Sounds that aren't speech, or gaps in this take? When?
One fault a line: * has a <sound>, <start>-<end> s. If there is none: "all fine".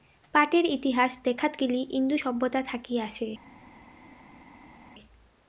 all fine